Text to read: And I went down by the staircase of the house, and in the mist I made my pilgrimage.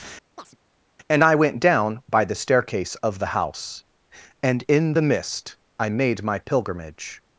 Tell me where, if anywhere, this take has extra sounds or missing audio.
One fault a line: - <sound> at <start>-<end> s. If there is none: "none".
- chirp at 0.4-0.6 s